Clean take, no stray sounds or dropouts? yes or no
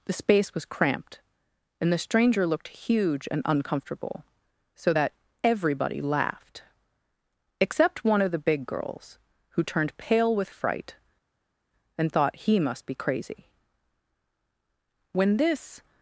yes